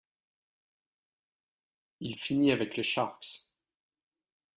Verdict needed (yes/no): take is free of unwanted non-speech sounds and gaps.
yes